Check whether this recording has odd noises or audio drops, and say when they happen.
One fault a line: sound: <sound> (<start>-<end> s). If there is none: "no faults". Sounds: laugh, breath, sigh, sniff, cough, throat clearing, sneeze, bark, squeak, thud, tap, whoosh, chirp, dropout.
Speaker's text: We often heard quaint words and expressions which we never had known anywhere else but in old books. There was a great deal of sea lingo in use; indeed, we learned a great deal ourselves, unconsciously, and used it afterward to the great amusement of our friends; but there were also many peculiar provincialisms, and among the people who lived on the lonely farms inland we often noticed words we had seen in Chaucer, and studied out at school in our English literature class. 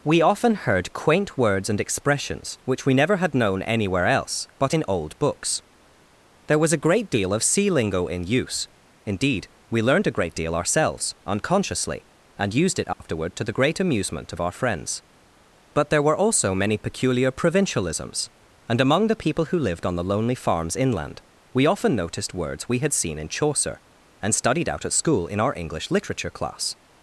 sound: dropout (12.9-13.0 s)